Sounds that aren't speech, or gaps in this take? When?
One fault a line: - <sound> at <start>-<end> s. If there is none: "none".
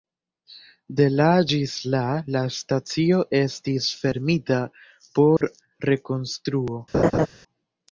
- dropout at 5.4-5.4 s
- laugh at 6.9-7.3 s